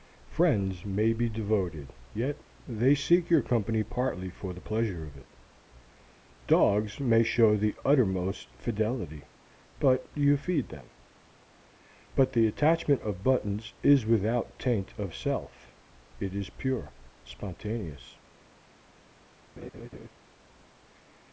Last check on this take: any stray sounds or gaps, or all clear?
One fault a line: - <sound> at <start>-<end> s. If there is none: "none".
- laugh at 19.6-20.1 s